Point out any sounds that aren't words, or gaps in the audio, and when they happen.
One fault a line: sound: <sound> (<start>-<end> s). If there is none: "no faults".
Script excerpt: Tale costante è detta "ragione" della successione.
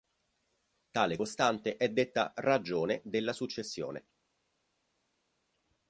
no faults